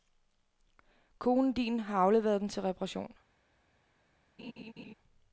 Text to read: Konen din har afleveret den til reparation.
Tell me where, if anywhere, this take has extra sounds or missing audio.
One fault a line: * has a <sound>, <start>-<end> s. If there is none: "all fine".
* has a laugh, 4.4-4.9 s